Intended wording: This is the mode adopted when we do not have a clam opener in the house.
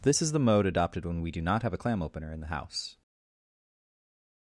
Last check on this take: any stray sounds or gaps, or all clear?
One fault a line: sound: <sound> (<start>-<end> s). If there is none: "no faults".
no faults